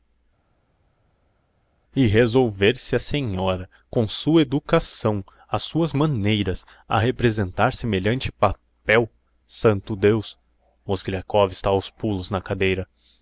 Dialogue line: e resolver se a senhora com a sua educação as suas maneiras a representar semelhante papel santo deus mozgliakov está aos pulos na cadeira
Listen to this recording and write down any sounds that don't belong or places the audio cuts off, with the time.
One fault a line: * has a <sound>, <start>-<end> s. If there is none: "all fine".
all fine